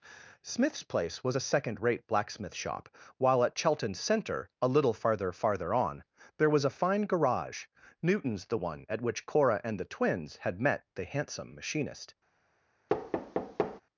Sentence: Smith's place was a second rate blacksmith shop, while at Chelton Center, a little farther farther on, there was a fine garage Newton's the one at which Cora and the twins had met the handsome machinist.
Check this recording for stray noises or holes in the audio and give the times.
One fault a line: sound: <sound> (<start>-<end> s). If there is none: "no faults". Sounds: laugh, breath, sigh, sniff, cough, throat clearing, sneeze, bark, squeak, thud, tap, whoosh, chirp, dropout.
sound: thud (12.9-13.8 s)